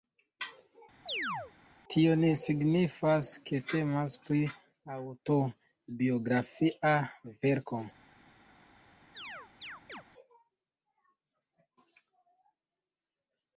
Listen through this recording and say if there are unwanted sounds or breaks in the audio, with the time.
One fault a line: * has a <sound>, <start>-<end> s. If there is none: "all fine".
* has a chirp, 1.1-1.5 s
* has a chirp, 9.1-10.0 s